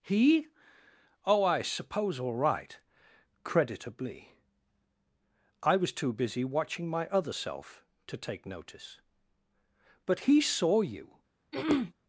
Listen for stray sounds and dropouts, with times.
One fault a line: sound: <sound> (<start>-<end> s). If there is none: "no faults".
sound: throat clearing (11.5-11.9 s)